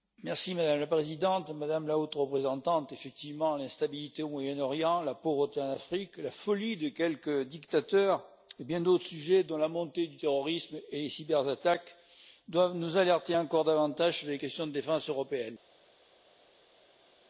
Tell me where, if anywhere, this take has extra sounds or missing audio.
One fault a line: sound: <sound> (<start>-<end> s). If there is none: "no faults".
no faults